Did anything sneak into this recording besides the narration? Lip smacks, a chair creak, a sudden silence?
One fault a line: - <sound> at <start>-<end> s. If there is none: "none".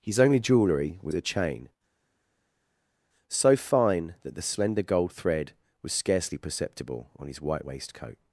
none